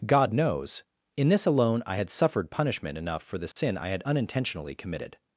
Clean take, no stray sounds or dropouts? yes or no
no